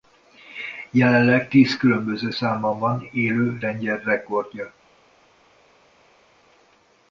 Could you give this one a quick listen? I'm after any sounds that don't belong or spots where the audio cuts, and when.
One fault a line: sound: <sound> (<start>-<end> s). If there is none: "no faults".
no faults